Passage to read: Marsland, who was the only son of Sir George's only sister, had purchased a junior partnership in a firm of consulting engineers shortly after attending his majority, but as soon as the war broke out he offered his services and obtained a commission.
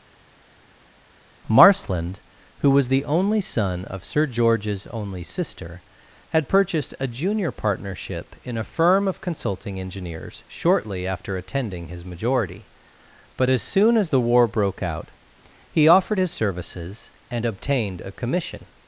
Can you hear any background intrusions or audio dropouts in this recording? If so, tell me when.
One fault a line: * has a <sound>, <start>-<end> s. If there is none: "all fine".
all fine